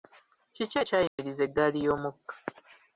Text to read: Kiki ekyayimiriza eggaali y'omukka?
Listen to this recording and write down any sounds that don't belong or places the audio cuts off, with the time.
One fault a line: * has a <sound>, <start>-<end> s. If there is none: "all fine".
* has a dropout, 1.1-1.2 s